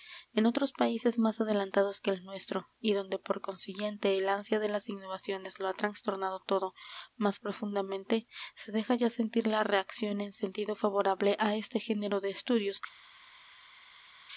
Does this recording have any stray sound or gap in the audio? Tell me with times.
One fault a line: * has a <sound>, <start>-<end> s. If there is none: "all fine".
all fine